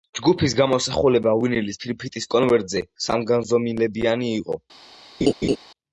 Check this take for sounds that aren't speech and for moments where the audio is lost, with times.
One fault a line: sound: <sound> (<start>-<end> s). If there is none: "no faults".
sound: laugh (5.2-5.6 s)